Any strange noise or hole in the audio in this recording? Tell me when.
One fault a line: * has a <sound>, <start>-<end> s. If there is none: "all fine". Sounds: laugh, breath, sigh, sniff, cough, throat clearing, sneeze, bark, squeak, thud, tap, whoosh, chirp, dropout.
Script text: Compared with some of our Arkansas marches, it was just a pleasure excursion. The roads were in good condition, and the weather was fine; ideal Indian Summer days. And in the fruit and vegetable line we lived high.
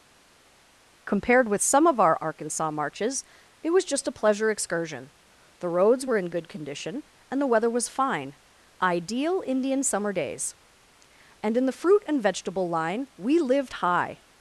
all fine